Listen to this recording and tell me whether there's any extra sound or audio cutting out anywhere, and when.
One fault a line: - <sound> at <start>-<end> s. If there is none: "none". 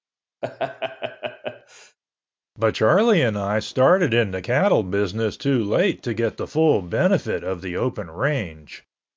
- laugh at 0.4-2.0 s